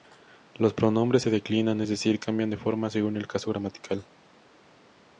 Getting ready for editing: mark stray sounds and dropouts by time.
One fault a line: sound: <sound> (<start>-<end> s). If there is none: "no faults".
no faults